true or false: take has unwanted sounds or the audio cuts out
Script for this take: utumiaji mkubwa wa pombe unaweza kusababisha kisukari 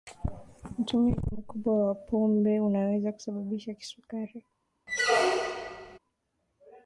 true